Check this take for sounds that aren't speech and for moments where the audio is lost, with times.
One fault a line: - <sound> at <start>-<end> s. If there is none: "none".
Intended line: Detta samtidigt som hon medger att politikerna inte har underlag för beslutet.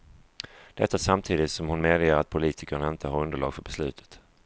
none